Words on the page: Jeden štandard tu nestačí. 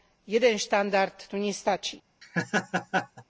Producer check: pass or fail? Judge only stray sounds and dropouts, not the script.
fail